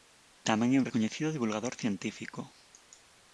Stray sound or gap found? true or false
false